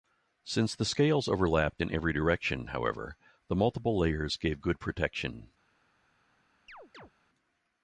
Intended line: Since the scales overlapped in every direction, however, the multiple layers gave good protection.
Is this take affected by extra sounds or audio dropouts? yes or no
yes